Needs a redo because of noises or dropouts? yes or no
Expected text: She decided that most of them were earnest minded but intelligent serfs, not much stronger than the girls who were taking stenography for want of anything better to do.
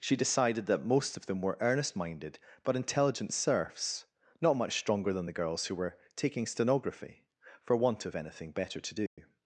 yes